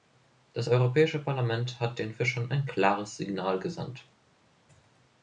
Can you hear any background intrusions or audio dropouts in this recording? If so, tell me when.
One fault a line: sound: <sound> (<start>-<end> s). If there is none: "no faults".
no faults